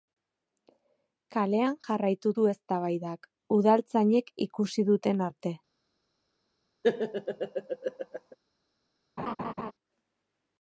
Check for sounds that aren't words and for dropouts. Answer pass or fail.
fail